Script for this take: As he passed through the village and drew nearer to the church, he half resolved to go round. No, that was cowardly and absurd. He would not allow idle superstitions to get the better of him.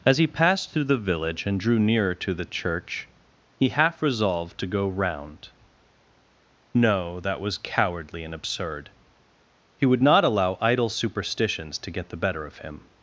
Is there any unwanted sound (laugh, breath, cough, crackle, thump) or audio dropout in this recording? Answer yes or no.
no